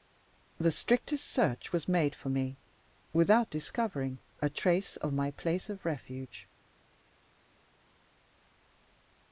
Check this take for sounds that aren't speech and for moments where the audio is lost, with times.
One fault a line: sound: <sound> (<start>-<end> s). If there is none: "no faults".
no faults